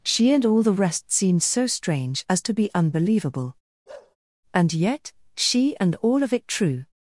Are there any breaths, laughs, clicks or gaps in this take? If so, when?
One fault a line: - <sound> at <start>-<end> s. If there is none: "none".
- bark at 3.9-4.2 s